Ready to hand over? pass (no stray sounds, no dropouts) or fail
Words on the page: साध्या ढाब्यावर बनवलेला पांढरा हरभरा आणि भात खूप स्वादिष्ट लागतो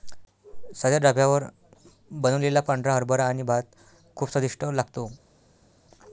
pass